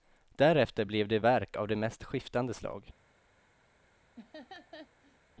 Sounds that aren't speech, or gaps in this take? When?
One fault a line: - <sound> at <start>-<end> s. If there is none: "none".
- laugh at 4.2-5.2 s